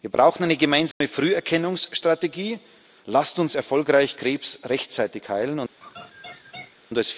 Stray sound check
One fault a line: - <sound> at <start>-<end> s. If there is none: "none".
- dropout at 0.9-1.0 s
- laugh at 5.8-6.8 s